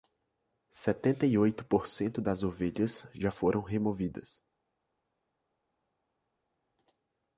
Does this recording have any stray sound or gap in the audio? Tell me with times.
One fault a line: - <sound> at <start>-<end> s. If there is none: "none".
none